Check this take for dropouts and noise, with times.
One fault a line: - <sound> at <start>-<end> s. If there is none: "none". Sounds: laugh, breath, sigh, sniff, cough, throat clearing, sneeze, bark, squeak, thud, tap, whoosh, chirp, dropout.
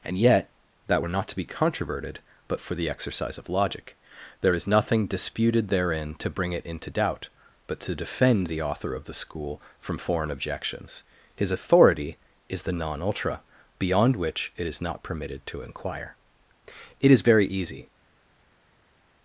none